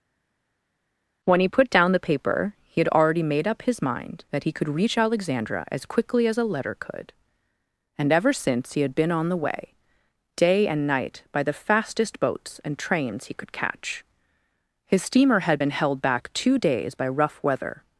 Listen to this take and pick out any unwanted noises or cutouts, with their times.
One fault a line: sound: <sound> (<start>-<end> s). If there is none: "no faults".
no faults